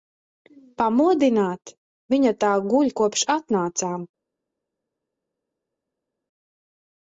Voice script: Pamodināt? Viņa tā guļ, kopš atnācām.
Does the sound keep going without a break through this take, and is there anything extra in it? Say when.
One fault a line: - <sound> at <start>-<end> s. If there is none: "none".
none